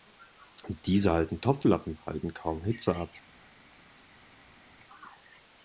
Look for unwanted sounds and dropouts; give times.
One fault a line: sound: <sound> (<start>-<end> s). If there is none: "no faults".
no faults